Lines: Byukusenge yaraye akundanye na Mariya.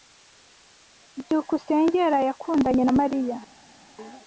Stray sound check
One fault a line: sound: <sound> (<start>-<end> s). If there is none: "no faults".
no faults